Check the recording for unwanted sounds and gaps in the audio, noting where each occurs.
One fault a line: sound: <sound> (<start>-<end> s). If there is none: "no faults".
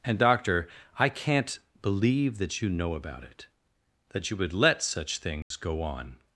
sound: dropout (5.4-5.5 s)